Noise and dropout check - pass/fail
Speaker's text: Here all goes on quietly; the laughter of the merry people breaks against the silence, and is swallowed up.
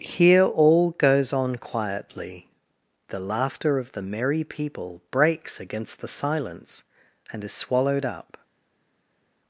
pass